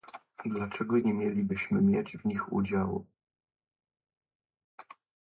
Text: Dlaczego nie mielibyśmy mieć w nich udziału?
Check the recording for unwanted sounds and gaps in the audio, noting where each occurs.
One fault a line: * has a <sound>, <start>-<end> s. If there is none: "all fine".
all fine